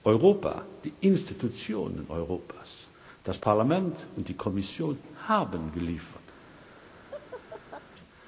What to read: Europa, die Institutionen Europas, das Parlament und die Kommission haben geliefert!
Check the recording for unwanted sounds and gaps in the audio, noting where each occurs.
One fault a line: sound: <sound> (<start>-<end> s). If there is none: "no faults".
sound: laugh (7.1-7.8 s)